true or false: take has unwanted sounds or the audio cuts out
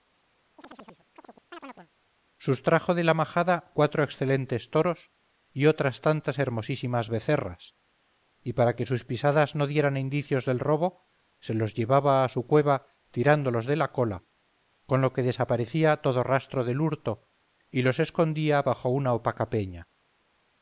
true